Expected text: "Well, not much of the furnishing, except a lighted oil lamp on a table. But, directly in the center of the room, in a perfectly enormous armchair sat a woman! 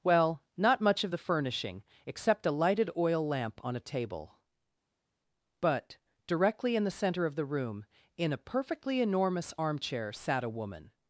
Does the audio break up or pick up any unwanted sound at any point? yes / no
no